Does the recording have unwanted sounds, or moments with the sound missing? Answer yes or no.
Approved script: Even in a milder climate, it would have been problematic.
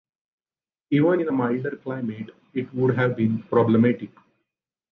no